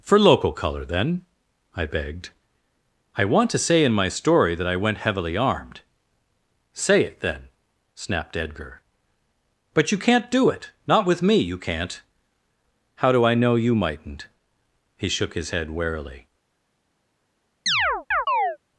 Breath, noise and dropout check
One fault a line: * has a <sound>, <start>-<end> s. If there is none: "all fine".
* has a chirp, 17.7-18.6 s